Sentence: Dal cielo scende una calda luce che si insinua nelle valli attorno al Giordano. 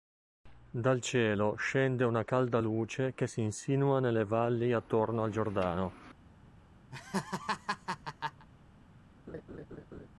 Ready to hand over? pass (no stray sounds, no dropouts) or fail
fail